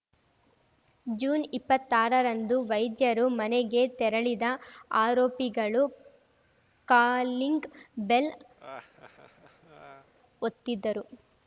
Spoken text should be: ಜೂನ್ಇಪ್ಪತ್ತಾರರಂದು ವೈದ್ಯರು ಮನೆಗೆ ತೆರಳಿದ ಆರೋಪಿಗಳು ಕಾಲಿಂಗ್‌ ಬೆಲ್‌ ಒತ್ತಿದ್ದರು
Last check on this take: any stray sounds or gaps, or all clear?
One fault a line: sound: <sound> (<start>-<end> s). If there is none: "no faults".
sound: laugh (8.6-10.1 s)